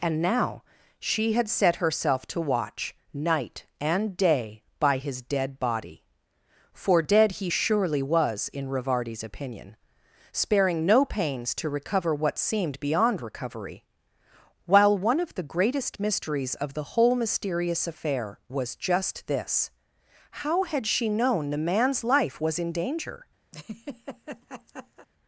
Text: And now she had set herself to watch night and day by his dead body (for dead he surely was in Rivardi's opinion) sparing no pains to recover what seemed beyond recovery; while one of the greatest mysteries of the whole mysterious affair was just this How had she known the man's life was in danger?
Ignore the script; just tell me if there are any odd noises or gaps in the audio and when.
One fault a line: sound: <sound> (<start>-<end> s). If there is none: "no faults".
sound: laugh (23.5-25.1 s)